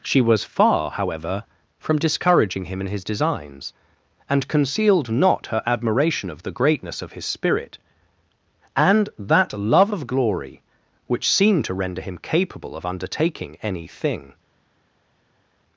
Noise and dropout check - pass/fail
pass